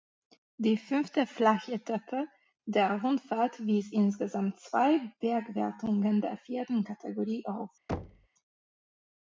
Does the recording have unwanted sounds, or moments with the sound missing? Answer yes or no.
yes